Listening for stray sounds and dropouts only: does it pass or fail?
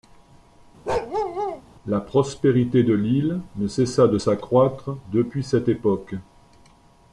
fail